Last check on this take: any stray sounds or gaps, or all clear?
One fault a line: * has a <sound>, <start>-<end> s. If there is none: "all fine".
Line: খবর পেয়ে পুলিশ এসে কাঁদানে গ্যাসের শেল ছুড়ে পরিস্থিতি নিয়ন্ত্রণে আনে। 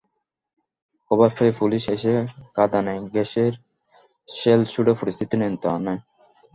all fine